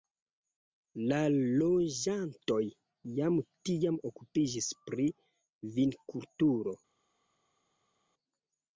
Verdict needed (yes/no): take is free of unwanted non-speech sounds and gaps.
yes